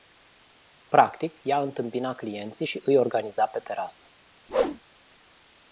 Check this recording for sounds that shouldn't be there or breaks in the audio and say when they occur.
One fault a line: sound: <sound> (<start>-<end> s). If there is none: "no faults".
sound: whoosh (4.5-4.8 s)